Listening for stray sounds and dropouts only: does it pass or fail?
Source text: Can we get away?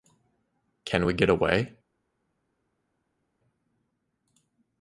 pass